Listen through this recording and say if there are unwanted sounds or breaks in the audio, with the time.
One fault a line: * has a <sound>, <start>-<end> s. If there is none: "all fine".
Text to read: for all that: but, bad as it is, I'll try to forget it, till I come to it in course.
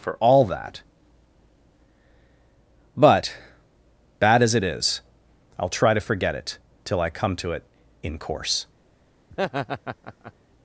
* has a laugh, 9.3-10.3 s